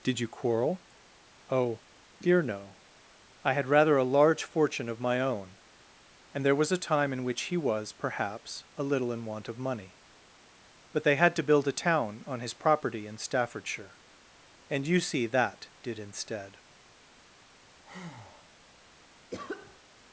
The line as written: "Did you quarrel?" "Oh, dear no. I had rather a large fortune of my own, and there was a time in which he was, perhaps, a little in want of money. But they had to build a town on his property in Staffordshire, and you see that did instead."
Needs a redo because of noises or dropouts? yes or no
yes